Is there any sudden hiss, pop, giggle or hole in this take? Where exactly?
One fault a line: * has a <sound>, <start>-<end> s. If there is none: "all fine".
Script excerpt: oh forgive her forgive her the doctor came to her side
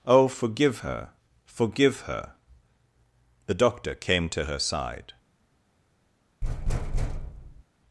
* has a thud, 6.4-7.6 s